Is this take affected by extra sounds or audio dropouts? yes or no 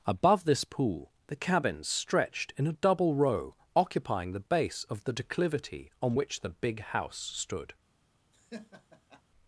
yes